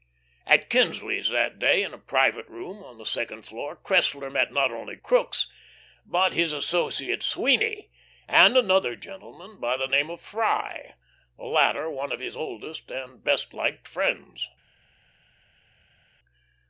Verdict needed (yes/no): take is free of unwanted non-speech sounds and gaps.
yes